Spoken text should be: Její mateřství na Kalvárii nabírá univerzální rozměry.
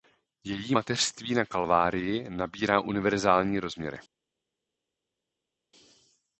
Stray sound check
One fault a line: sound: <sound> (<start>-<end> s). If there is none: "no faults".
no faults